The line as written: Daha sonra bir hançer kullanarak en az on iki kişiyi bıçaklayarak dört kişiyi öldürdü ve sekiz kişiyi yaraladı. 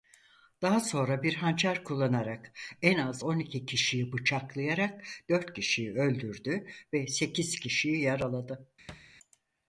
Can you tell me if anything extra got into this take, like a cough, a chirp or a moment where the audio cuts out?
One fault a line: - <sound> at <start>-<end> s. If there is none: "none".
- thud at 8.9-9.1 s